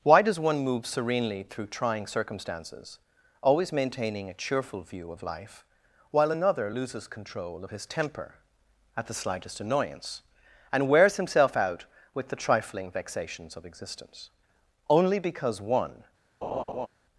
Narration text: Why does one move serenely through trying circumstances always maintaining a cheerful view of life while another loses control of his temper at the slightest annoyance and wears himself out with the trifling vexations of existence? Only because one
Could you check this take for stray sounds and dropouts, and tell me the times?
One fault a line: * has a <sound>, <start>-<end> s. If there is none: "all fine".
* has a laugh, 16.4-16.9 s